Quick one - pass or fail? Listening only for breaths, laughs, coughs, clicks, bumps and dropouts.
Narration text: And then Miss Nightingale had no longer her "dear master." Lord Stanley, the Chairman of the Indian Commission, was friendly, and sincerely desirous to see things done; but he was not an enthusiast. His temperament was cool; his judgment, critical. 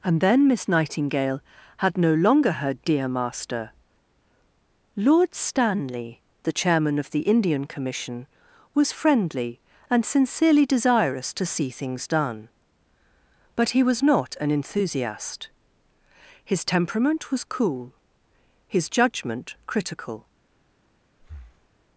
fail